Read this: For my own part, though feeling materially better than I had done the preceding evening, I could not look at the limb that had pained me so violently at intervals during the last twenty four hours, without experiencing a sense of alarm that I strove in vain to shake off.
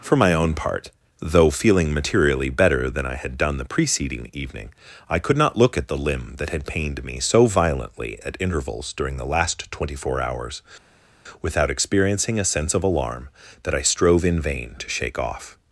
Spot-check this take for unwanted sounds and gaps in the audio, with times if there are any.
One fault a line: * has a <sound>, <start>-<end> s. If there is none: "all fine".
all fine